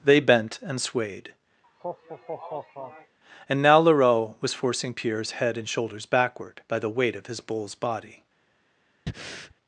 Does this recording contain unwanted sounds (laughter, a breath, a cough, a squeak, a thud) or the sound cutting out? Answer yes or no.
yes